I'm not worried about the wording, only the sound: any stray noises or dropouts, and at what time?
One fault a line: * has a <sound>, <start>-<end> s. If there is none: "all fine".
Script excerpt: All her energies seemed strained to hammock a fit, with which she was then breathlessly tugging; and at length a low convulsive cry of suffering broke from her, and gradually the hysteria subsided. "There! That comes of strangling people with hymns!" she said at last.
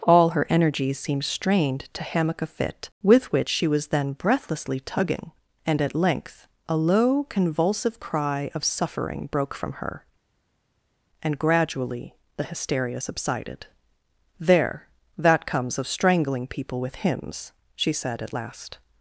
all fine